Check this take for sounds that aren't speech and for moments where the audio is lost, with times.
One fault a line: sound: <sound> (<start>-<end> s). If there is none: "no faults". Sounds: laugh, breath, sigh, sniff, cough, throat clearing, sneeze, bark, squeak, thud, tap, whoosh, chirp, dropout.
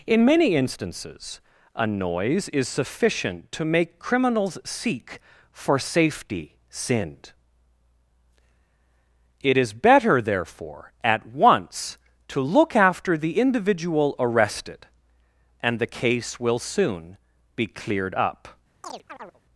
sound: chirp (18.8-19.4 s)